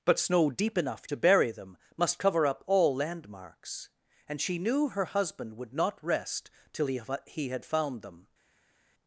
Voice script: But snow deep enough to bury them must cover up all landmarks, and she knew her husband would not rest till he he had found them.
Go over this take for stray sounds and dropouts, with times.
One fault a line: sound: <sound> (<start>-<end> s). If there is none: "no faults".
no faults